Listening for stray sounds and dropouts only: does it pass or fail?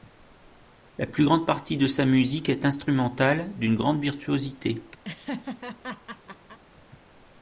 fail